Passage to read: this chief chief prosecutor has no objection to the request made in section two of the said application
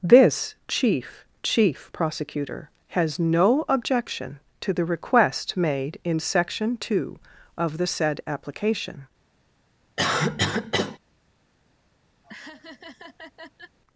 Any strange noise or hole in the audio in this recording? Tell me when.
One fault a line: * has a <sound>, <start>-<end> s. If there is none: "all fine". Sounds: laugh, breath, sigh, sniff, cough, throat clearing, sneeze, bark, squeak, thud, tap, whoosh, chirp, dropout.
* has a cough, 10.0-11.0 s
* has a laugh, 12.2-13.8 s